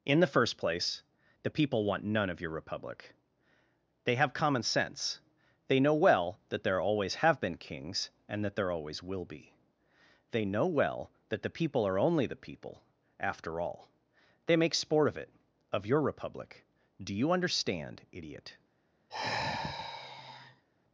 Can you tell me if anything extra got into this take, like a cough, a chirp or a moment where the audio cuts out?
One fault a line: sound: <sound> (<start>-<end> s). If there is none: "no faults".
sound: sigh (19.1-20.6 s)